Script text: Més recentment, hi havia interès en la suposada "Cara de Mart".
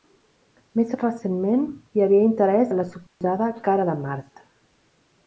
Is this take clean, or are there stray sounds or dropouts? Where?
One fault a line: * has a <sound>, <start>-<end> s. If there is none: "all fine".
* has a dropout, 3.1-3.2 s